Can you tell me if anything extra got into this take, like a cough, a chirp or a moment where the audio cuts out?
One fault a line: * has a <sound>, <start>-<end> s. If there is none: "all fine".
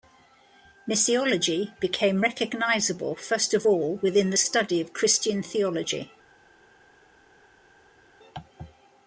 all fine